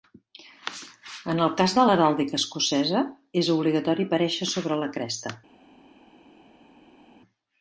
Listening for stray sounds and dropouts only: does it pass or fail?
pass